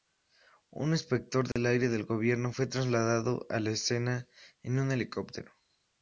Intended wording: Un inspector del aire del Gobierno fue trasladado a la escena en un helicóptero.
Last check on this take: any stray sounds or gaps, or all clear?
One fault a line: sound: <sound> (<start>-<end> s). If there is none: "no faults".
sound: dropout (1.5-1.6 s)